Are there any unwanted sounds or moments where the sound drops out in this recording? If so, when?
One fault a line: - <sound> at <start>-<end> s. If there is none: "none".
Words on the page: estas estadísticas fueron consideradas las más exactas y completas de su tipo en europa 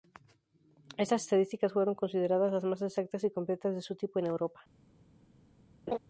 - laugh at 5.9-6.0 s